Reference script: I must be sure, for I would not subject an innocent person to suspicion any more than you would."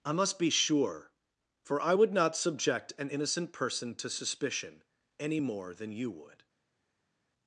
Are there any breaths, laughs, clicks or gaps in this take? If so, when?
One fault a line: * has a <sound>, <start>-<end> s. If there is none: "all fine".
all fine